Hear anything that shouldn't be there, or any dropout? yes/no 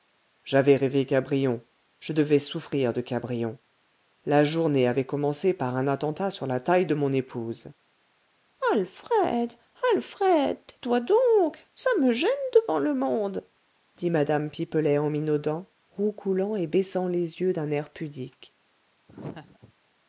yes